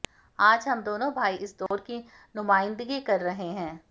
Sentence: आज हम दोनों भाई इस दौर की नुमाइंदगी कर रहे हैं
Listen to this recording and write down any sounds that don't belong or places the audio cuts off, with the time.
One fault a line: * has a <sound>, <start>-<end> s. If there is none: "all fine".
* has a dropout, 1.7-1.7 s